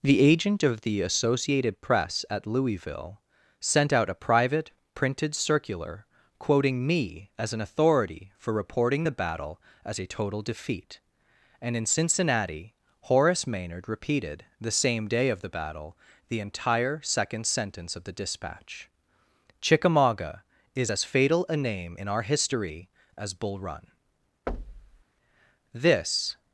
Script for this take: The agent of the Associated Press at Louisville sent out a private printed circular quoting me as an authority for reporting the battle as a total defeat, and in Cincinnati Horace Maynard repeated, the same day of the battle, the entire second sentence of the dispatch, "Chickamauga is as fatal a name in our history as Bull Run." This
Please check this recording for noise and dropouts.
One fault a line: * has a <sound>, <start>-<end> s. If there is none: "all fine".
* has a thud, 24.5-25.0 s